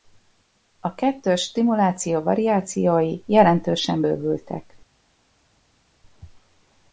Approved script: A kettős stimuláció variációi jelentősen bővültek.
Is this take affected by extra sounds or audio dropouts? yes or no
no